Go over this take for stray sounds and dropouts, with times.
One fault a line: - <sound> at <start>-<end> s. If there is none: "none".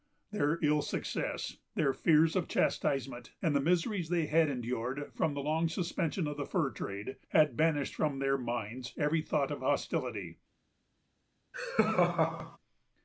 - laugh at 11.5-12.6 s